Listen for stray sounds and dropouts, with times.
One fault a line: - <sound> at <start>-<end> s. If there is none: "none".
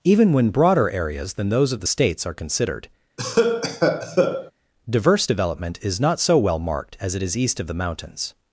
- cough at 3.2-4.5 s